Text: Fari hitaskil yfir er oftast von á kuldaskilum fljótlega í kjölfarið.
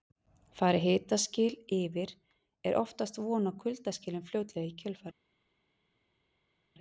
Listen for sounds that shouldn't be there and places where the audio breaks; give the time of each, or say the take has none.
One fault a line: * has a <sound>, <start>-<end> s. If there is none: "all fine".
all fine